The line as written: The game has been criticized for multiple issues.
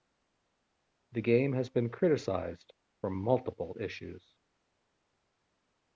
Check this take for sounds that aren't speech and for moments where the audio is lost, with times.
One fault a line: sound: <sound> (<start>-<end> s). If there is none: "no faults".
no faults